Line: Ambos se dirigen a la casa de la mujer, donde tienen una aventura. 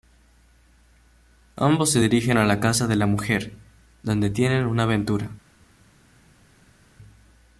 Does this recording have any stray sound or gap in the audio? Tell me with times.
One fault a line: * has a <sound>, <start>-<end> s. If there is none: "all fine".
all fine